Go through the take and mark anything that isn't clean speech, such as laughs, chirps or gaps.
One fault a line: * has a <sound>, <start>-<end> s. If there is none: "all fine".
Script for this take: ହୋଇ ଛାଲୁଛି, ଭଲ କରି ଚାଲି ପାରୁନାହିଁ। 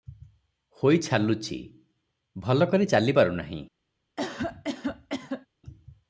* has a cough, 4.2-5.5 s